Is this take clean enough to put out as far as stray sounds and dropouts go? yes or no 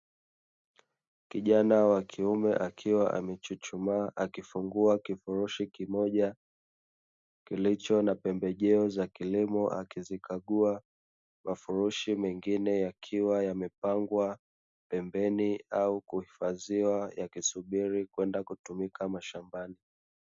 yes